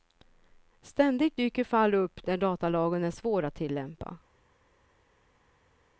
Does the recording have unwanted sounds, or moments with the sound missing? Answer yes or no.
no